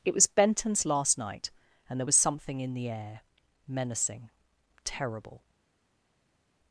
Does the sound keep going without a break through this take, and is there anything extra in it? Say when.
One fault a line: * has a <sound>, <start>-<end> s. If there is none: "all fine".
all fine